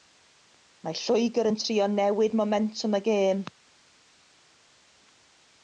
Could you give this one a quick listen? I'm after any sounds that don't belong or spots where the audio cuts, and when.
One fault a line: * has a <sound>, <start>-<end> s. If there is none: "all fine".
all fine